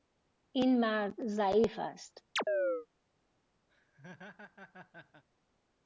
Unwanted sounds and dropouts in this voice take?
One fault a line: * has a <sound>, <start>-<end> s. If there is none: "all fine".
* has a chirp, 2.4-2.9 s
* has a laugh, 3.7-5.2 s